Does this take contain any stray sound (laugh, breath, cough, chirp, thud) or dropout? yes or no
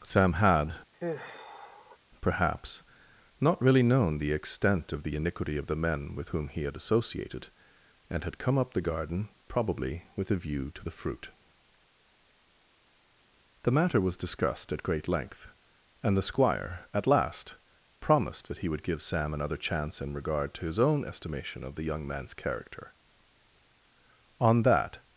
yes